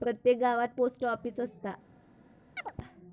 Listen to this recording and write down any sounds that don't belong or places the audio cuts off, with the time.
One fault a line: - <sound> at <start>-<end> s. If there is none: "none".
- chirp at 2.6-2.7 s